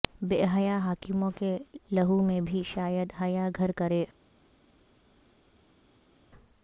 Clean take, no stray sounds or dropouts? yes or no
yes